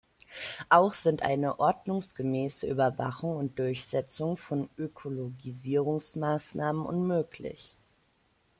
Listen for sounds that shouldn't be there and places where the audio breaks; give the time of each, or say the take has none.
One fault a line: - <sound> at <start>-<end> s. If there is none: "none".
none